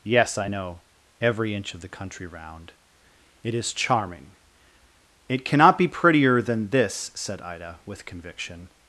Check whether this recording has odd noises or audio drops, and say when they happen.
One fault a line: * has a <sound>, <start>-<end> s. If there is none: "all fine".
all fine